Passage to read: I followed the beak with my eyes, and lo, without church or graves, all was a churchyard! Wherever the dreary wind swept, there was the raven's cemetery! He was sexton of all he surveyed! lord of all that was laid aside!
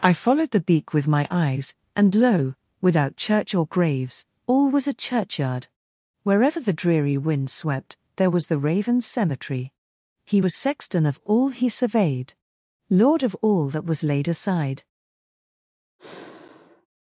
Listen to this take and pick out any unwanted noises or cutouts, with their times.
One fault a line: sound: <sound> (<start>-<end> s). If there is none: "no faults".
sound: sigh (16.0-16.9 s)